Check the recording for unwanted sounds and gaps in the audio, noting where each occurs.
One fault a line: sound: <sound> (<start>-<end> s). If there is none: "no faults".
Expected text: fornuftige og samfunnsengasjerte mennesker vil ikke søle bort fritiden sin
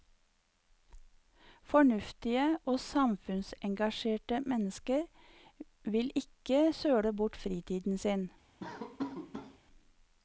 sound: laugh (8.6-9.6 s)